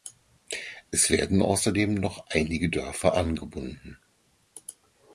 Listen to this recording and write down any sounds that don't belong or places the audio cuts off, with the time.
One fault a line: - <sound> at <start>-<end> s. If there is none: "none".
none